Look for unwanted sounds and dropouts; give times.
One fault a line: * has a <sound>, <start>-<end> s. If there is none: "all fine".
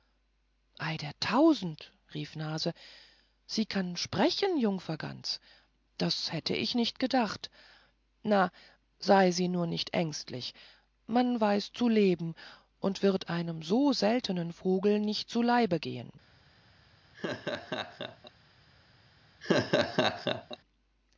* has a laugh, 17.1-18.3 s
* has a laugh, 19.4-20.6 s